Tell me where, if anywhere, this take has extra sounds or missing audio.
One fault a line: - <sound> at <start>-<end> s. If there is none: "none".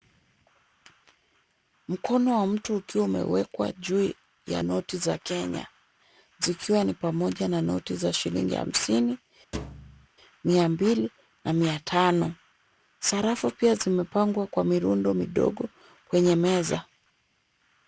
- thud at 9.5-10.1 s